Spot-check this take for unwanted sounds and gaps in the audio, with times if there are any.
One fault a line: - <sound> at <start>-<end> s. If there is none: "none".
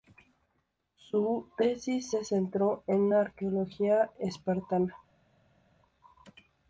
none